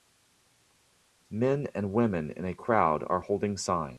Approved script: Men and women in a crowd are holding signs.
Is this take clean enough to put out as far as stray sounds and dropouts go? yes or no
yes